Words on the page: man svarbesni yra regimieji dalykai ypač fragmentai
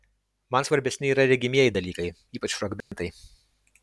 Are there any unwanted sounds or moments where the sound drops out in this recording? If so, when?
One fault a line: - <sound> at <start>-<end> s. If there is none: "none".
- dropout at 2.8-2.9 s